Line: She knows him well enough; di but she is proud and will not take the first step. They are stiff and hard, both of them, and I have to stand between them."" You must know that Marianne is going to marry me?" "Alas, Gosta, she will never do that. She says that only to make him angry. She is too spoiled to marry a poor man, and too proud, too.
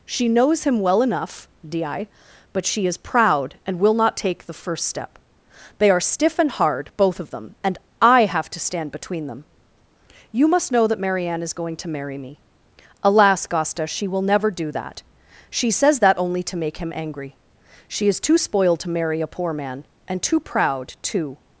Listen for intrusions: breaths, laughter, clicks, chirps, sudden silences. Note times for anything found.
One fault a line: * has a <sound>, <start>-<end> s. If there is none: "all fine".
all fine